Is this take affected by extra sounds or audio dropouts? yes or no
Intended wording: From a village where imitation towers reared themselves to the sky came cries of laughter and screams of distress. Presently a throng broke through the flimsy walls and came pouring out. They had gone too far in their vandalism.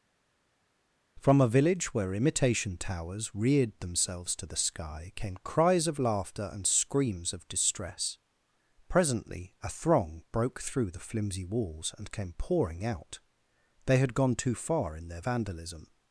no